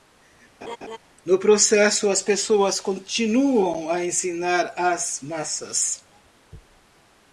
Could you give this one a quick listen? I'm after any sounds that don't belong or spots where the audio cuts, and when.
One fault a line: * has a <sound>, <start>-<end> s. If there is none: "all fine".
* has a laugh, 0.6-1.0 s